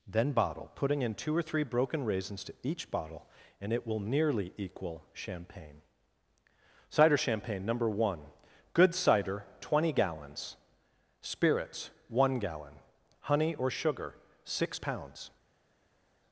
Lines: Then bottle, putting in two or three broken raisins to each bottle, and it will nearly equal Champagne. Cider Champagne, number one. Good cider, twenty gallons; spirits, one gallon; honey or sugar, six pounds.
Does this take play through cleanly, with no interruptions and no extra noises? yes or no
yes